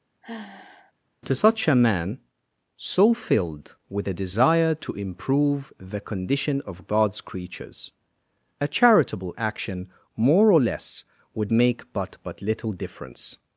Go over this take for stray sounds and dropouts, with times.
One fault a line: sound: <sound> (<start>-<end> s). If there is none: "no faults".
sound: sigh (0.2-0.9 s)